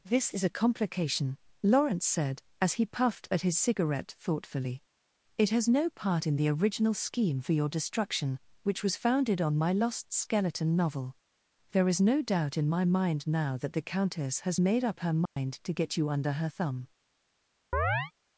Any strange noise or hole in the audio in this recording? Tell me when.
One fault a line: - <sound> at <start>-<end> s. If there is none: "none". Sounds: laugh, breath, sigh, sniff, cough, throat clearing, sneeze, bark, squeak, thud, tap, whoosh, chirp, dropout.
- dropout at 15.3-15.4 s
- chirp at 17.7-18.1 s